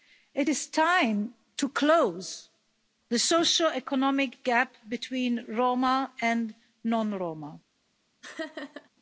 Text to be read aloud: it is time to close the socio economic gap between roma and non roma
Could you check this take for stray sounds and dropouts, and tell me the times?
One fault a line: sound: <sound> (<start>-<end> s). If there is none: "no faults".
sound: laugh (8.2-8.9 s)